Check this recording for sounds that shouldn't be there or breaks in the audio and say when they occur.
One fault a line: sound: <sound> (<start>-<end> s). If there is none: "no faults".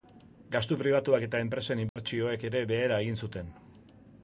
sound: dropout (1.9-2.0 s)